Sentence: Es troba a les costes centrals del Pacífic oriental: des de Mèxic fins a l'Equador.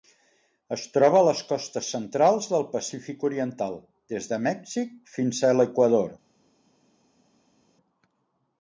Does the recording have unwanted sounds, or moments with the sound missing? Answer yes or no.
no